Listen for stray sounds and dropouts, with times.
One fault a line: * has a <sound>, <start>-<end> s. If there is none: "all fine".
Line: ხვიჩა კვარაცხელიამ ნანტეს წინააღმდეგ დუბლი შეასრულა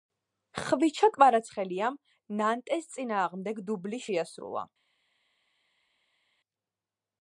all fine